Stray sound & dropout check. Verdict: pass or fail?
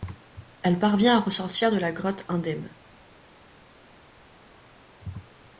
pass